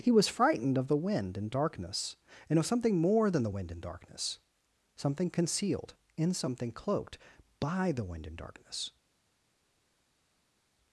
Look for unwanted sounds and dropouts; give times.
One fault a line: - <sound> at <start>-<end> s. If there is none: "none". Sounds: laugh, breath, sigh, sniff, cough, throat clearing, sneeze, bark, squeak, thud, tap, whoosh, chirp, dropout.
none